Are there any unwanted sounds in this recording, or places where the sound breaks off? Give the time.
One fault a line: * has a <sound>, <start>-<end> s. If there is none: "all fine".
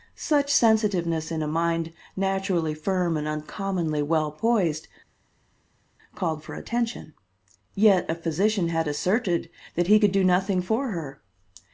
all fine